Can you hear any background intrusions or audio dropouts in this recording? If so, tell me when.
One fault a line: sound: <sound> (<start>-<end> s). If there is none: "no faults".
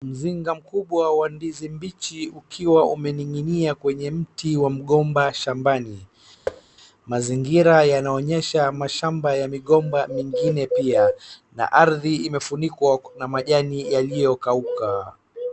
sound: thud (6.5-6.6 s)